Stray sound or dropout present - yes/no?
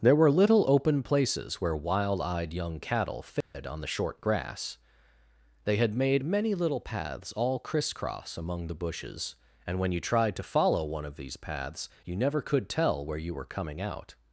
yes